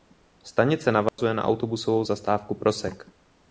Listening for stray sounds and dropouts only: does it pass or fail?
fail